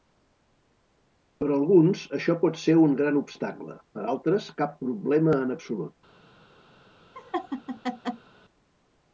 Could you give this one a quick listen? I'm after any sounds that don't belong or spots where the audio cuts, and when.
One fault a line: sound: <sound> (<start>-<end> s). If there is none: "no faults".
sound: laugh (7.1-8.3 s)